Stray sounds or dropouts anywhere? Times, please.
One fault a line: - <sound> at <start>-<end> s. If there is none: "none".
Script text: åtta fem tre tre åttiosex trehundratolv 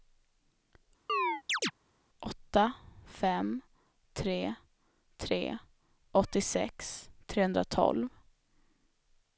- chirp at 1.1-1.7 s